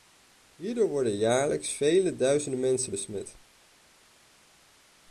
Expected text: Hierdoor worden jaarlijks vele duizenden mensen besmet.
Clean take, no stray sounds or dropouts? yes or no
yes